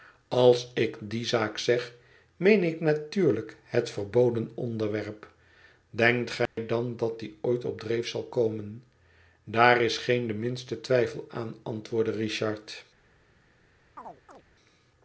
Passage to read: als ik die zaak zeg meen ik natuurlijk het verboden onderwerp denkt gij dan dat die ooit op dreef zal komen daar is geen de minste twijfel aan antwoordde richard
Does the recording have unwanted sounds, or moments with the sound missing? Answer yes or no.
yes